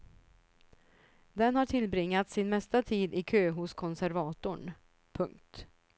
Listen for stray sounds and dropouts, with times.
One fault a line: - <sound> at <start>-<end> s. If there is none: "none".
none